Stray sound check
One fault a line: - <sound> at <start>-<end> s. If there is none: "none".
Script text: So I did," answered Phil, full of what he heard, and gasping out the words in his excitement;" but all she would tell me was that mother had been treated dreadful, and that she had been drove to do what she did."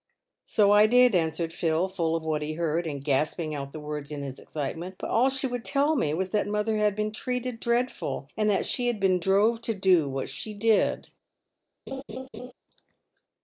- laugh at 11.9-12.5 s